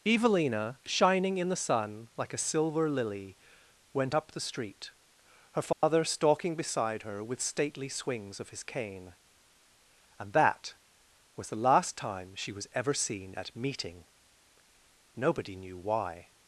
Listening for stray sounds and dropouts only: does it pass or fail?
fail